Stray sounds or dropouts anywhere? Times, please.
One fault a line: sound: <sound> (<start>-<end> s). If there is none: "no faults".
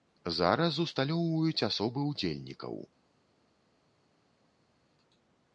no faults